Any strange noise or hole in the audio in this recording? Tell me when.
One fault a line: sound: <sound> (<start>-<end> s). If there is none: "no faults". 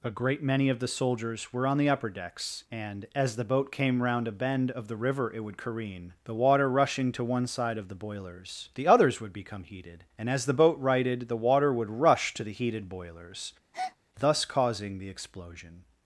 sound: breath (13.7-14.0 s)